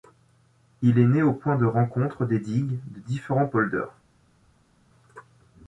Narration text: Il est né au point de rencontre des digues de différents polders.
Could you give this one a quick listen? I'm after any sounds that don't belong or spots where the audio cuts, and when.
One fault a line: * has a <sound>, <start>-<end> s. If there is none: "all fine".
all fine